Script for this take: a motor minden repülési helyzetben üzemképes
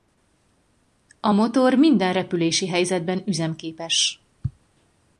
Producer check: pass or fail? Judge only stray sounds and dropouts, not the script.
pass